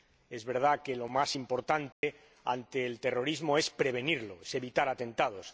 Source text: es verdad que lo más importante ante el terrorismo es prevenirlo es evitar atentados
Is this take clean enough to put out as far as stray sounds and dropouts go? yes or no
no